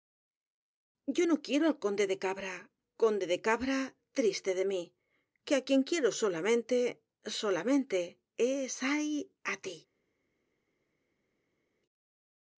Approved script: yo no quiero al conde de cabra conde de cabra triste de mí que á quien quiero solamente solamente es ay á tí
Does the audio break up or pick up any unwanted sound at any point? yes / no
no